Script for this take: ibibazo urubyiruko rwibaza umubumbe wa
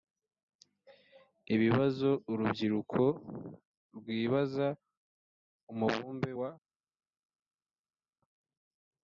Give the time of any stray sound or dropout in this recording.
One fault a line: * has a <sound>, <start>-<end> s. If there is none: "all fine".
all fine